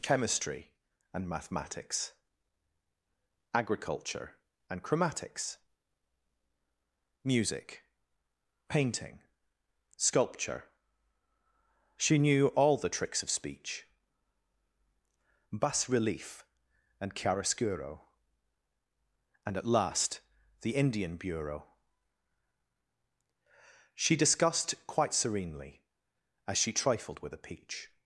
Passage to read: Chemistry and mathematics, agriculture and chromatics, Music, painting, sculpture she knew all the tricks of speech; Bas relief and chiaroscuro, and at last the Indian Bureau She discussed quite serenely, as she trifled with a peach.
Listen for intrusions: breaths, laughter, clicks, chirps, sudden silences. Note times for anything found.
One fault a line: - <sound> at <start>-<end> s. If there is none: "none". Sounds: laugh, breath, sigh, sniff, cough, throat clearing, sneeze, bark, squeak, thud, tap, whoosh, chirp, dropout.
none